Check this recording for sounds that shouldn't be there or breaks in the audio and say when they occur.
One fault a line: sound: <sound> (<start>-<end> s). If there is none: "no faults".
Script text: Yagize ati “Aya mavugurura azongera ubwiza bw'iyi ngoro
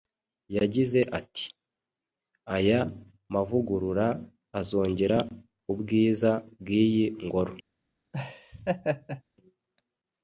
sound: laugh (8.1-9.2 s)